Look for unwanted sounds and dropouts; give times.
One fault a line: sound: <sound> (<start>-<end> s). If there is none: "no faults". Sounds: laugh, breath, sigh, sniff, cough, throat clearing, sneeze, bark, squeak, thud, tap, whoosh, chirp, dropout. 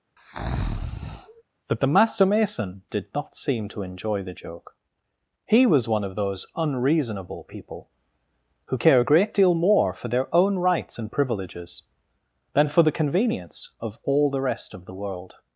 sound: breath (0.2-1.4 s)